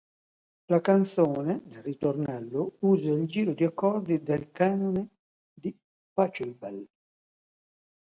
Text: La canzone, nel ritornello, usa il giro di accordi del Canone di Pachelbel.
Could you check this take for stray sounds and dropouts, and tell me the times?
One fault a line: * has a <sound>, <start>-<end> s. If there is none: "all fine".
all fine